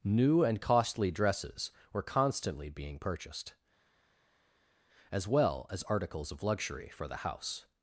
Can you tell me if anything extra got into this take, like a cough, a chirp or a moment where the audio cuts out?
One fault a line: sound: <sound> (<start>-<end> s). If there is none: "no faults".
no faults